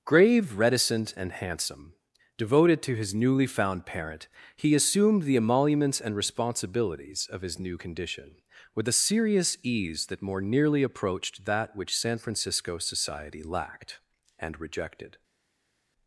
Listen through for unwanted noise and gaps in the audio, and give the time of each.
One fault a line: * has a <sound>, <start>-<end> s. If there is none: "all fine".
all fine